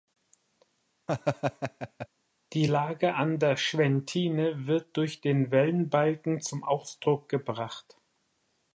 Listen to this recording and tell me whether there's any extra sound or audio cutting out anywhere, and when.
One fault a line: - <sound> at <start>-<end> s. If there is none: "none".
- laugh at 1.1-2.1 s